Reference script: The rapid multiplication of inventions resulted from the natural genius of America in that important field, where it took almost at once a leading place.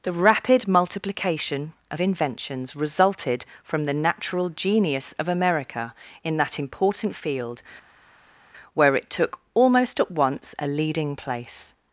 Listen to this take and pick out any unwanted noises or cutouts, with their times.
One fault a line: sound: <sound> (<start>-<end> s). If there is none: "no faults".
no faults